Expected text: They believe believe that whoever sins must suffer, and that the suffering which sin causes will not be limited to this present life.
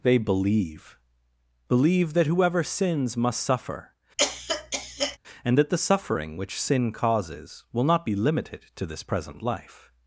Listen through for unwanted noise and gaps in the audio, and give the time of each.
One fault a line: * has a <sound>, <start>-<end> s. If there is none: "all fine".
* has a cough, 4.2-5.2 s